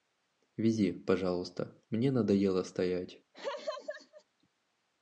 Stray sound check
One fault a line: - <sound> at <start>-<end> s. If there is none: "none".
- laugh at 3.3-4.2 s